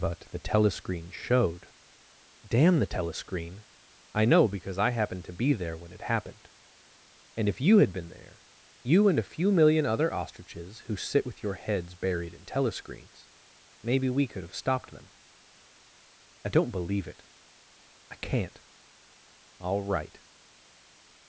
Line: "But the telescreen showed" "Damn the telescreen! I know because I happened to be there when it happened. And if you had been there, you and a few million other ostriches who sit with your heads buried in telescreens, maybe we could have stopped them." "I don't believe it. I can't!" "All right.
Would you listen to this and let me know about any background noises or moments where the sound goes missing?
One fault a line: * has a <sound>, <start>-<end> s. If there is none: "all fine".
all fine